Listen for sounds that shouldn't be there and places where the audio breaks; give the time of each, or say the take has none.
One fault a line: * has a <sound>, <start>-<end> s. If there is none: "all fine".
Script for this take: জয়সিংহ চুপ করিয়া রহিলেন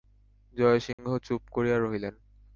* has a dropout, 0.9-1.0 s